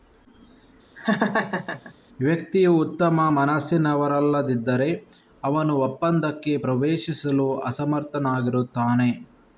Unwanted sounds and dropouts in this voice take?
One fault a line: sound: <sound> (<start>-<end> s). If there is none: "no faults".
sound: laugh (1.0-1.9 s)